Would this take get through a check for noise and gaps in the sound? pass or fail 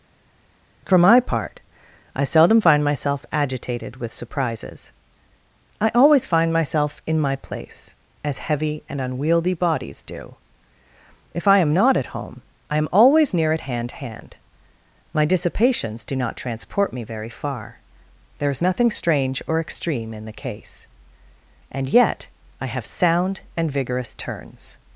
pass